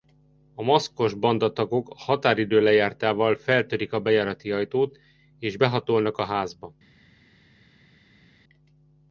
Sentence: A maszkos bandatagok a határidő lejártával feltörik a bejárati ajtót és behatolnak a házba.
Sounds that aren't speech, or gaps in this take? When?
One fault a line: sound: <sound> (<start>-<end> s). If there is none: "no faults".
no faults